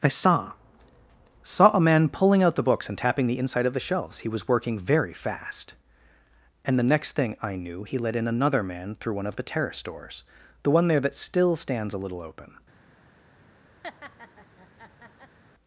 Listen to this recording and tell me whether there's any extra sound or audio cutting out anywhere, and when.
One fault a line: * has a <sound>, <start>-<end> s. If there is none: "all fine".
* has a laugh, 13.8-15.4 s